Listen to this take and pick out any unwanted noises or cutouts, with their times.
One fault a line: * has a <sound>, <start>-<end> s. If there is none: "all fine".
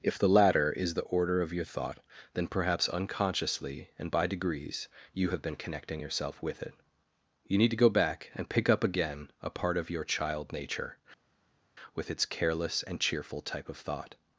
all fine